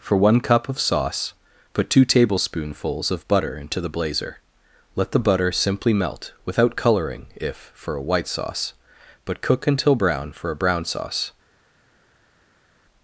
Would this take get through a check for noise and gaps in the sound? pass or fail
pass